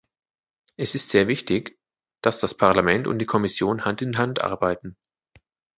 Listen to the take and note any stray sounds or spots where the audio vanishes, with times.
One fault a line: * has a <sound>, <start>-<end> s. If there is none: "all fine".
all fine